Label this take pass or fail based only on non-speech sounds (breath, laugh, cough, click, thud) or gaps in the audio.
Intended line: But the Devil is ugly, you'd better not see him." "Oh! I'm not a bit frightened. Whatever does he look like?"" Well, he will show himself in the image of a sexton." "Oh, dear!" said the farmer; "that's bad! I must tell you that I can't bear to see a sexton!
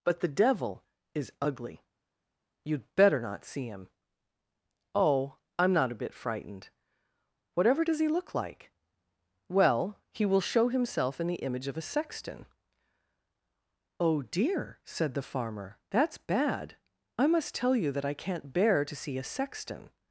pass